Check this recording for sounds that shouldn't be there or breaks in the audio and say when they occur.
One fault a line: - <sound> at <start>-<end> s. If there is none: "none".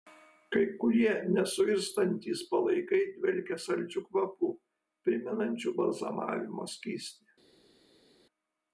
none